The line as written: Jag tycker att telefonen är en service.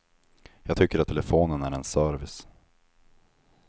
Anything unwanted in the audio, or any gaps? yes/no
no